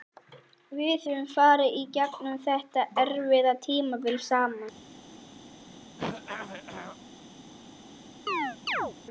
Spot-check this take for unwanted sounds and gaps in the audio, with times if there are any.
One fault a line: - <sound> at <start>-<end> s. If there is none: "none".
- throat clearing at 6.0-7.0 s
- chirp at 8.3-8.9 s